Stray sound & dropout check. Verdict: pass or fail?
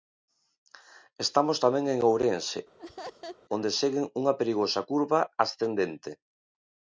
fail